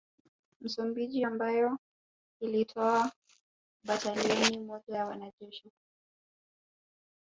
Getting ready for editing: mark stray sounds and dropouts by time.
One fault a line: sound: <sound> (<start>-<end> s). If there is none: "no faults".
no faults